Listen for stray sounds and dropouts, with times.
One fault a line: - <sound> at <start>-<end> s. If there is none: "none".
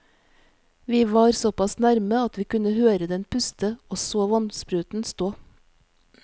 none